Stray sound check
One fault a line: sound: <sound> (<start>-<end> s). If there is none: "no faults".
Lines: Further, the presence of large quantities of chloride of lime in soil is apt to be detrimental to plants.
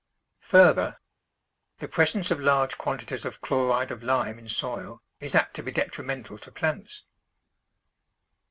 no faults